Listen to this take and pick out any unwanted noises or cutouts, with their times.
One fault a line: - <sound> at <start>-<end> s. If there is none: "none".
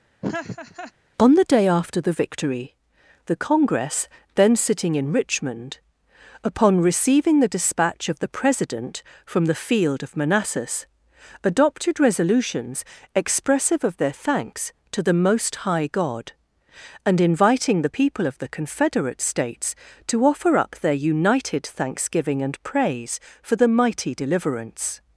- laugh at 0.2-0.9 s